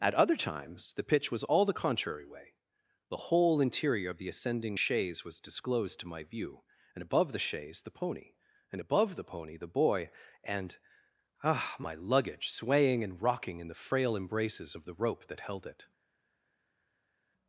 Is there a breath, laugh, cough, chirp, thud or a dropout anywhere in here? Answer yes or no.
no